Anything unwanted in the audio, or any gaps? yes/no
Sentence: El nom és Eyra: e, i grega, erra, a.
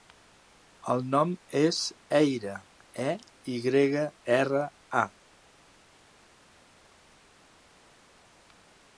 no